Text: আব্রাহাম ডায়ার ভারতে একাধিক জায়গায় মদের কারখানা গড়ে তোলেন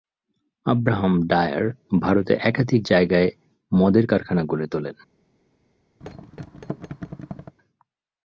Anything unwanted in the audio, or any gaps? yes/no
yes